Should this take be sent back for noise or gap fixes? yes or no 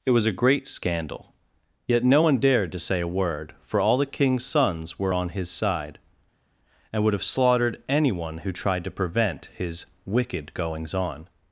no